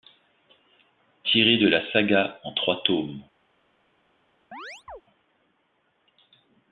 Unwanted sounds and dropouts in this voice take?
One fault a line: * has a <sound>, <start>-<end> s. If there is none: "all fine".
* has a chirp, 4.5-5.0 s